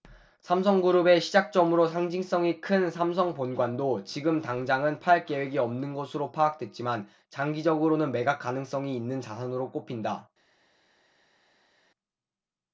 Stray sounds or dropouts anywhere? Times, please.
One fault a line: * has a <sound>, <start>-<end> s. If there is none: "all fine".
all fine